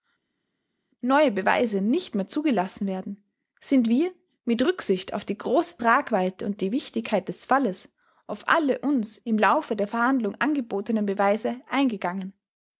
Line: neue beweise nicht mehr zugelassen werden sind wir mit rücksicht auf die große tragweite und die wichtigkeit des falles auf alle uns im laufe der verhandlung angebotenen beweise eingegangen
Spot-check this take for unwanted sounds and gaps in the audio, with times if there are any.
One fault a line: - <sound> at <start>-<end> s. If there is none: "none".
none